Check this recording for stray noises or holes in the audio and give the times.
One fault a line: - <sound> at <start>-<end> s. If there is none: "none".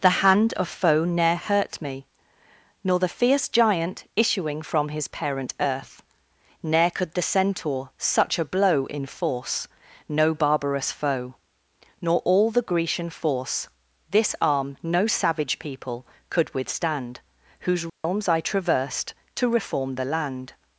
- dropout at 17.9-18.0 s